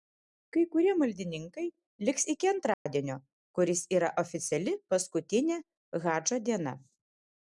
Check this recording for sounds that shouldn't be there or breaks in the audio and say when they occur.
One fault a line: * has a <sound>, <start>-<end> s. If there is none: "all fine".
* has a dropout, 2.7-2.9 s